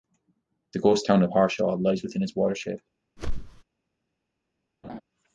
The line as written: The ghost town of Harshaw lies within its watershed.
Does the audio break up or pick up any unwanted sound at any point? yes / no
yes